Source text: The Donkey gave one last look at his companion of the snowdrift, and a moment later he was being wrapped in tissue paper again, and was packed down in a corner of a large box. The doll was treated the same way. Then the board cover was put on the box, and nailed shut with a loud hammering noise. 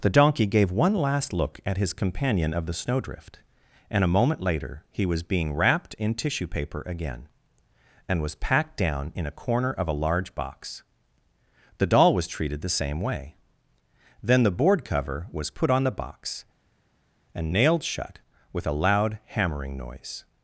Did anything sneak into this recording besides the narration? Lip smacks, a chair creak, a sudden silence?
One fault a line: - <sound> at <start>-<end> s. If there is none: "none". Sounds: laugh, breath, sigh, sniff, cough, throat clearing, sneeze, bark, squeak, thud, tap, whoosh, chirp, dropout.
none